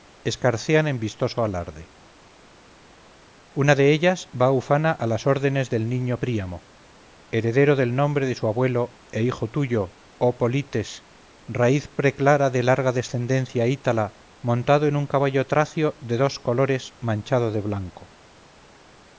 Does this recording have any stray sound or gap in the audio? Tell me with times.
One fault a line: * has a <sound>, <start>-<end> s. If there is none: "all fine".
all fine